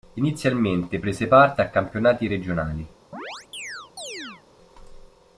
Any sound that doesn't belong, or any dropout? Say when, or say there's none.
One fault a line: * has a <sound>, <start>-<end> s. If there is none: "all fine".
* has a chirp, 3.1-4.4 s